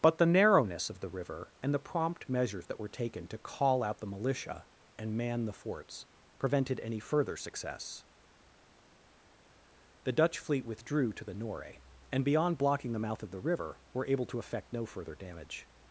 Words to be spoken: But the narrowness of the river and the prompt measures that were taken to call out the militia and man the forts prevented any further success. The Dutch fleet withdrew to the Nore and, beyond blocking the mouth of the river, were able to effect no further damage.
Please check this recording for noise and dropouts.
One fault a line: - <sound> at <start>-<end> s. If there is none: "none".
none